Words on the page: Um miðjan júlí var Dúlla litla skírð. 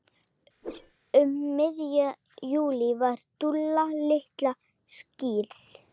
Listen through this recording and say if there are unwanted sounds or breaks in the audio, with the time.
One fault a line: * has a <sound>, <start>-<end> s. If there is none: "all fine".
* has a whoosh, 0.6-1.0 s